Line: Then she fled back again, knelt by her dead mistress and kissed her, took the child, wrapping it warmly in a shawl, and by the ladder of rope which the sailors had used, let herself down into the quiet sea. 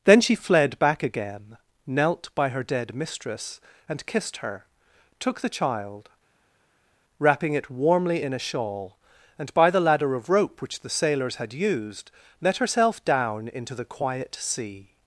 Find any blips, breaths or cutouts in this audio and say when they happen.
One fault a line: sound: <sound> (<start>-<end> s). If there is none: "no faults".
no faults